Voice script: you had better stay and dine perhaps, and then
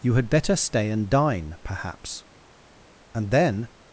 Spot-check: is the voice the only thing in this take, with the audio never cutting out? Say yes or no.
yes